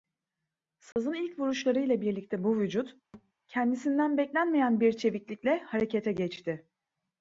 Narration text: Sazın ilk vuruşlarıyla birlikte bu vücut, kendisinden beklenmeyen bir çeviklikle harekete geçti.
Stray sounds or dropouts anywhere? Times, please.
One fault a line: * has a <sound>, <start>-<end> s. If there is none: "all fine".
* has a dropout, 0.9-1.0 s
* has a thud, 3.1-3.3 s